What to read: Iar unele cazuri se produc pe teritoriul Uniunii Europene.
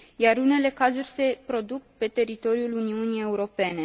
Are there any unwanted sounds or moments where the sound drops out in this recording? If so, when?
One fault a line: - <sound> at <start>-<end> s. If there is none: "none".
none